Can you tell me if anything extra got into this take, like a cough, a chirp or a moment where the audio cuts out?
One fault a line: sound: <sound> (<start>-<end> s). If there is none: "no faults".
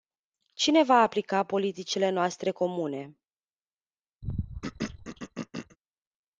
sound: throat clearing (4.2-5.8 s)